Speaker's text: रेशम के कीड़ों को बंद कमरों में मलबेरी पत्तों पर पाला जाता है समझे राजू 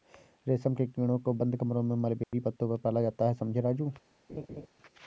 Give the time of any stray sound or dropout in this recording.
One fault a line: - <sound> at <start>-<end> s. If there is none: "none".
- dropout at 2.2-2.3 s
- laugh at 4.3-4.7 s